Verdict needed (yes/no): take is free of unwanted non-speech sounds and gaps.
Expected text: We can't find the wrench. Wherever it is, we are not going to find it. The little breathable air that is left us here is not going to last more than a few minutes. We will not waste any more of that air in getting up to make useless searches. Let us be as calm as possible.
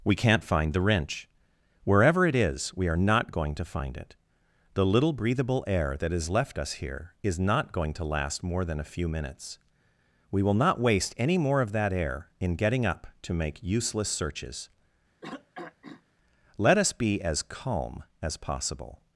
no